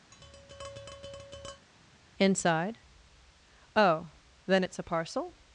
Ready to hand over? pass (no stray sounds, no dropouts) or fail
fail